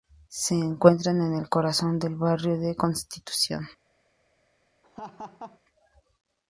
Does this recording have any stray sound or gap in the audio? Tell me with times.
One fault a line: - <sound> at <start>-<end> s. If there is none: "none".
- laugh at 4.8-5.6 s